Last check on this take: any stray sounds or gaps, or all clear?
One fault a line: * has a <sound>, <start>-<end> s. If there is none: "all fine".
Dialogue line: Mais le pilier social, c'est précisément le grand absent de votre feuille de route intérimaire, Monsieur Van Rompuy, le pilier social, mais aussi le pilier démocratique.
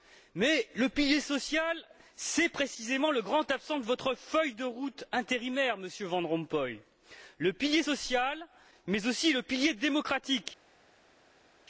all fine